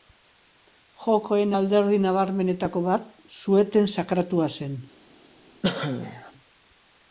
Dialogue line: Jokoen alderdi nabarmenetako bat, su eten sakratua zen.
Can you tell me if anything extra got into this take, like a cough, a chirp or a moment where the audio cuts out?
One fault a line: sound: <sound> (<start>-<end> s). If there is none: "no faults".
sound: cough (5.6-6.3 s)